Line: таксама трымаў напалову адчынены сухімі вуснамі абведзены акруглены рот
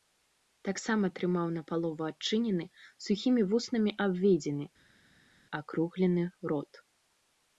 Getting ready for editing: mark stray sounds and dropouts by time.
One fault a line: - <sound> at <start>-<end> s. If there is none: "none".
none